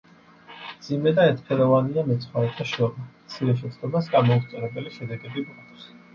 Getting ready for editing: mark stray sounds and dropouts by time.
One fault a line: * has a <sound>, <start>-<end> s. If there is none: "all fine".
all fine